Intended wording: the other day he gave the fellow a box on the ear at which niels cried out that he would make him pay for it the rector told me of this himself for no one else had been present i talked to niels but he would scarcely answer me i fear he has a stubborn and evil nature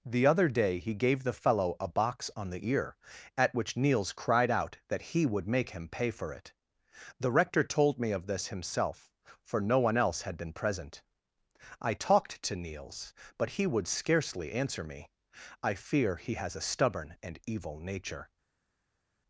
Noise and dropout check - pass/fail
pass